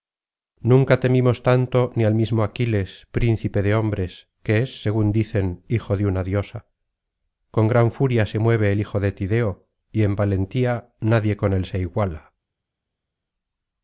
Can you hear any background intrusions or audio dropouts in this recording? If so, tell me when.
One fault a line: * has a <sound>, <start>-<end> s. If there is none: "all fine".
all fine